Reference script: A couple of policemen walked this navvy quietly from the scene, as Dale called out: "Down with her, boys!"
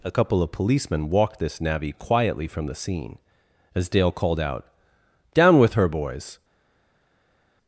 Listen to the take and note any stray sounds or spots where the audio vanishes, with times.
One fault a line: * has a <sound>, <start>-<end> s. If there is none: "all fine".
all fine